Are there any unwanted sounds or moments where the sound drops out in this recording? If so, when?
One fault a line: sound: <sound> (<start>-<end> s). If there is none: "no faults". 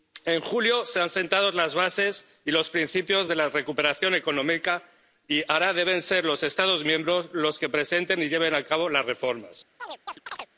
sound: chirp (9.8-10.5 s)